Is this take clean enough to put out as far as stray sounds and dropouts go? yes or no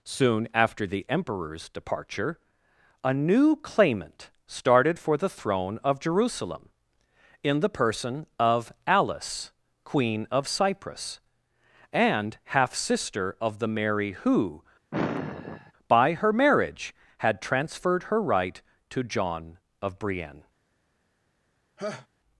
no